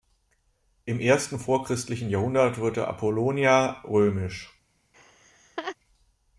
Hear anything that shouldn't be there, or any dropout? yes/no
yes